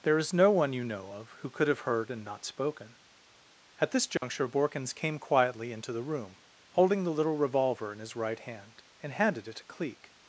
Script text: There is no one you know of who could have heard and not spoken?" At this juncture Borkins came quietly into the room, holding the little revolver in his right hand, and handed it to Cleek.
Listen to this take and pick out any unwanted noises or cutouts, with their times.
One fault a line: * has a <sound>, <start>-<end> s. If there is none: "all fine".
* has a dropout, 4.2-4.2 s